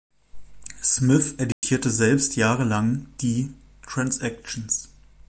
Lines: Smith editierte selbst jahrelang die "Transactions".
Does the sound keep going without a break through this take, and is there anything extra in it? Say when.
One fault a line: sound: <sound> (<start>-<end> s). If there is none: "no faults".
sound: dropout (1.5-1.6 s)